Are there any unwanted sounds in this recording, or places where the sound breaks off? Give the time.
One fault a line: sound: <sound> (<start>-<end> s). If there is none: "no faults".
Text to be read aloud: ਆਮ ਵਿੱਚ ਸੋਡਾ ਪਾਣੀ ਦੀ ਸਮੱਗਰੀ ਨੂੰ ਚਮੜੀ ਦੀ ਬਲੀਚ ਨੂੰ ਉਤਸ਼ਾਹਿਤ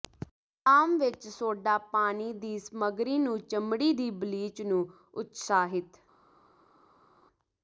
no faults